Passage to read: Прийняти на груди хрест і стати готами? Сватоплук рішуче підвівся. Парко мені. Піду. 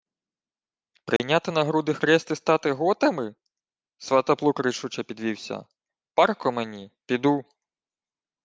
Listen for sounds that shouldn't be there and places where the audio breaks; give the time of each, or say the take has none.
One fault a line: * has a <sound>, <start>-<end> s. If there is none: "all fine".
* has a dropout, 1.2-1.2 s